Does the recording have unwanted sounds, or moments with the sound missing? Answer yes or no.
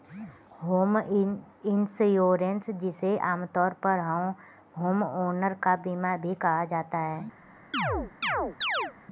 yes